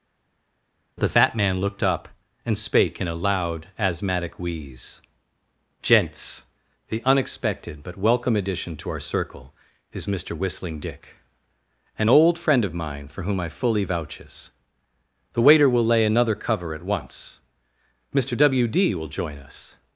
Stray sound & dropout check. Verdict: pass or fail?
pass